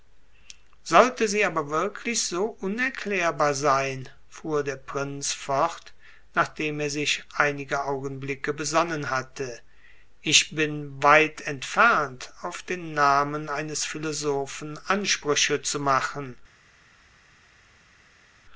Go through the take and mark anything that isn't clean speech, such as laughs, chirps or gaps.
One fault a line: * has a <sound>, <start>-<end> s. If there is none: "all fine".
all fine